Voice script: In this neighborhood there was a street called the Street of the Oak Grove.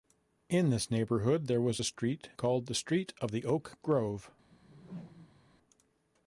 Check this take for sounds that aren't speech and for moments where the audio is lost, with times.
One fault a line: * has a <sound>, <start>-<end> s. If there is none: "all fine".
* has a whoosh, 4.5-5.5 s